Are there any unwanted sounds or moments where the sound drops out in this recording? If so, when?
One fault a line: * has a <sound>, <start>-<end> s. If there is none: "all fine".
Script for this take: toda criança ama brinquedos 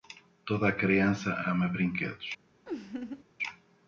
* has a laugh, 2.7-3.2 s